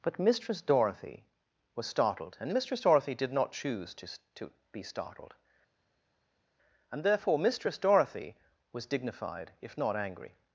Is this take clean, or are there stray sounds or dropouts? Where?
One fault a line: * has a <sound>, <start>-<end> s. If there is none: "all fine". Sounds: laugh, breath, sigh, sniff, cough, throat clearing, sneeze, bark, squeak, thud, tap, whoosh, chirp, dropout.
all fine